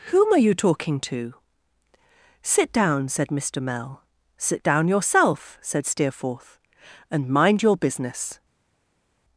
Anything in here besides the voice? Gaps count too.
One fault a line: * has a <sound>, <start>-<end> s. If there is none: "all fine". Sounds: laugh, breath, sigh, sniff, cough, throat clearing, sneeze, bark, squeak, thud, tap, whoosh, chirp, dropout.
all fine